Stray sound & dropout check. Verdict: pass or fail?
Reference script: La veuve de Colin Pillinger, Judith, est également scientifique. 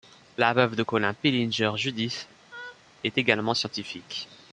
fail